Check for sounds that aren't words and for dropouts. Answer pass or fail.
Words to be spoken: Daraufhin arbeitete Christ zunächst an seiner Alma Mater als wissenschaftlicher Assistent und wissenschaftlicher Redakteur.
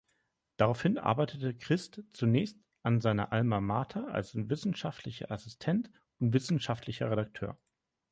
pass